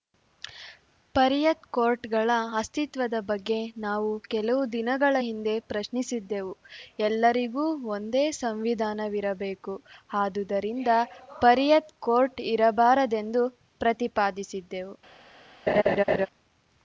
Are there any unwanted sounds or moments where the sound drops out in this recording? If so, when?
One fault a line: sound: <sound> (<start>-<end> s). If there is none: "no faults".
sound: laugh (15.7-16.3 s)